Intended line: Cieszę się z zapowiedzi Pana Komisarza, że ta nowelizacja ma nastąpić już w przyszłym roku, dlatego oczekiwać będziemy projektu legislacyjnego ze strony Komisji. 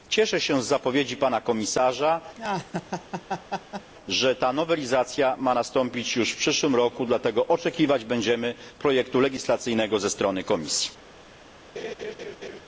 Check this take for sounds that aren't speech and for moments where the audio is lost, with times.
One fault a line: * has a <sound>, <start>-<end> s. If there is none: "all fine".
* has a laugh, 2.4-3.9 s
* has a laugh, 11.8-12.6 s